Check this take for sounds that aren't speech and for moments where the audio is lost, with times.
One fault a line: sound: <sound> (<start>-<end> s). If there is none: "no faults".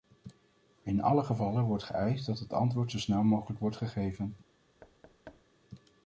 sound: thud (4.8-5.4 s)